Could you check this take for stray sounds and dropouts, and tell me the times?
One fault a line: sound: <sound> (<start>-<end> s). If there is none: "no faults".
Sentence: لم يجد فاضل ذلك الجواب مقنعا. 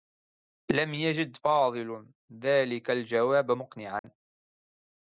sound: dropout (4.0-4.0 s)